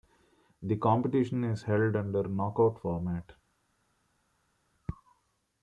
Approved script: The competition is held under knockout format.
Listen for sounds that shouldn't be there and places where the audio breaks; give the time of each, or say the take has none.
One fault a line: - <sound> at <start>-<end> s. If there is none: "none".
none